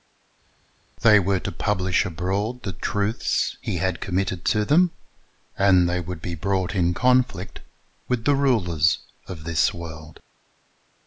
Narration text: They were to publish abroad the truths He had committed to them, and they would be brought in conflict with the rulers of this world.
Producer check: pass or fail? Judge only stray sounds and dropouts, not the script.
pass